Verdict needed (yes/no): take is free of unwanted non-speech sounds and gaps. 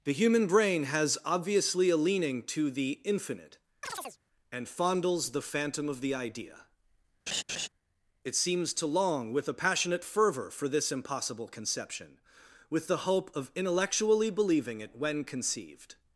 no